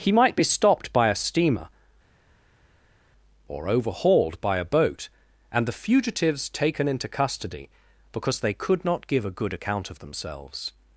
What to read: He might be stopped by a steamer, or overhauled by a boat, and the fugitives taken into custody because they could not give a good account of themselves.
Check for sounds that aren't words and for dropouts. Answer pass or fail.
pass